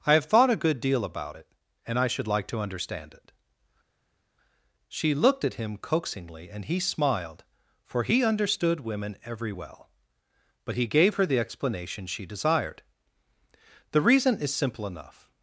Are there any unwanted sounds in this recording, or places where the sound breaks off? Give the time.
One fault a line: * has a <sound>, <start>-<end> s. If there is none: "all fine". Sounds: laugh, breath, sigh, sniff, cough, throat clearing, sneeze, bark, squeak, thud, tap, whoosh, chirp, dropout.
all fine